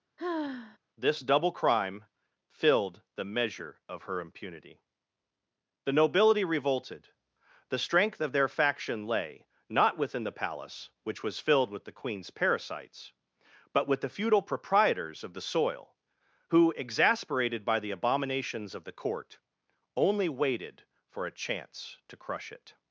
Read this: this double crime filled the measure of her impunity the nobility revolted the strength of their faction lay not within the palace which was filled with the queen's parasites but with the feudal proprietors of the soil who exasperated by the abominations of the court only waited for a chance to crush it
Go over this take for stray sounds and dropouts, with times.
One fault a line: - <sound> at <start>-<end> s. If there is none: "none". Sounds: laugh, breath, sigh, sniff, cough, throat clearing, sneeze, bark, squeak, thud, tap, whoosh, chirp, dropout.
- sigh at 0.2-0.8 s